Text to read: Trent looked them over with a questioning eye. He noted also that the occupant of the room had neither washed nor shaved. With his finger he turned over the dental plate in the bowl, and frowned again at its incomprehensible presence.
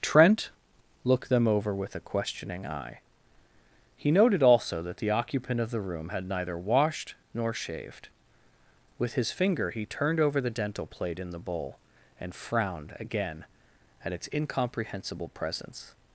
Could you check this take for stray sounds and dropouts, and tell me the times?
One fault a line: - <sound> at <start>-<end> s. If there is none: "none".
none